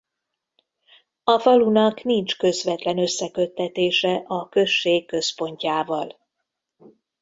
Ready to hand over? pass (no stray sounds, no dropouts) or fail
pass